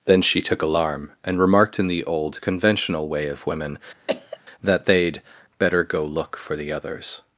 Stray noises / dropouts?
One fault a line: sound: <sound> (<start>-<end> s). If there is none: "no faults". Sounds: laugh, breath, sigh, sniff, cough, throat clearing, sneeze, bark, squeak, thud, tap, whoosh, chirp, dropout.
sound: cough (4.1-4.4 s)